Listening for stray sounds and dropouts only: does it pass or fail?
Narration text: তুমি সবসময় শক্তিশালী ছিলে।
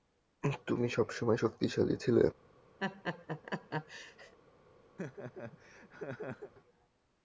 fail